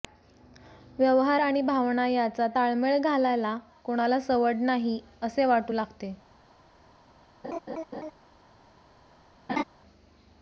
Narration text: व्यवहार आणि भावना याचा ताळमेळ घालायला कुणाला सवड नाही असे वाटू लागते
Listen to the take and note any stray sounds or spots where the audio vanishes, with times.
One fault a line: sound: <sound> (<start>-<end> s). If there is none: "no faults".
sound: laugh (7.4-8.1 s)
sound: laugh (9.5-9.6 s)